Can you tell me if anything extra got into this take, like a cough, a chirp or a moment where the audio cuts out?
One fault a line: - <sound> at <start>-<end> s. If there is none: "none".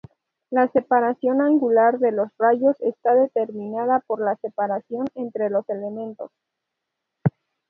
none